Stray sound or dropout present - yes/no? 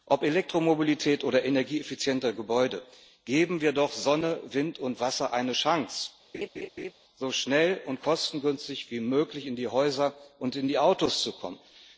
yes